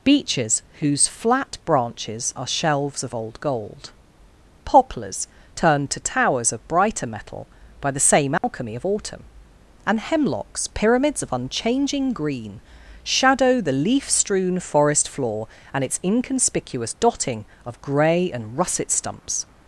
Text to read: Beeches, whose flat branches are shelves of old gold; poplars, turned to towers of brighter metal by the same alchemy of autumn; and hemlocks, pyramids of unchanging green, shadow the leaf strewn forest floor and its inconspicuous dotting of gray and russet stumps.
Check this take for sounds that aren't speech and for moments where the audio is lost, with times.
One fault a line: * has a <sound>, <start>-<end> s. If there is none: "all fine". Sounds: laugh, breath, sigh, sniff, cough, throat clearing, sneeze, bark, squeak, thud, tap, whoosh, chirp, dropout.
* has a dropout, 8.4-8.4 s